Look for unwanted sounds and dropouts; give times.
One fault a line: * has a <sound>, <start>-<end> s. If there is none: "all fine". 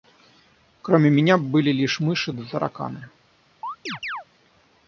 * has a chirp, 3.6-4.2 s